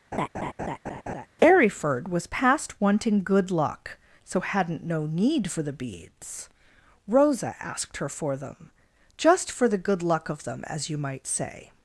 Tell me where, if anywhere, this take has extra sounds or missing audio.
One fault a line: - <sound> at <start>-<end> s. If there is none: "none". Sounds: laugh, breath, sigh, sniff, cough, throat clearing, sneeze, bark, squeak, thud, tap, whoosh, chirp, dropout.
- laugh at 0.1-1.3 s